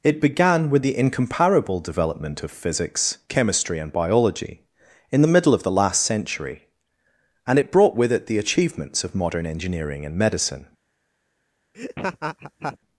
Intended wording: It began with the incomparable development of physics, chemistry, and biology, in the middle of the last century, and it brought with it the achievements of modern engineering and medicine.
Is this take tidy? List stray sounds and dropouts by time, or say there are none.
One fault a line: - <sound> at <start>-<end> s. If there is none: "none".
- laugh at 11.7-12.8 s